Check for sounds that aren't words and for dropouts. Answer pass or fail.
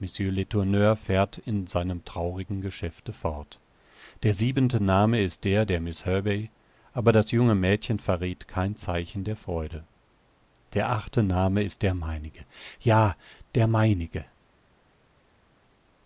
pass